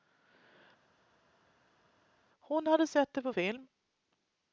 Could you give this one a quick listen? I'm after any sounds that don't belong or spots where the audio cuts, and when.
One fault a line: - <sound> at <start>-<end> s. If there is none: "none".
none